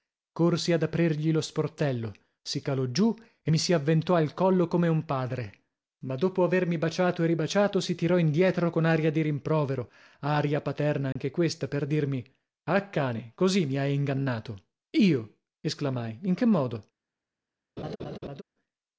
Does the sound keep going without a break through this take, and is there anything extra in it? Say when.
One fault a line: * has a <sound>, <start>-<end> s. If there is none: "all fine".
* has a dropout, 11.1-11.2 s
* has a laugh, 17.8-18.4 s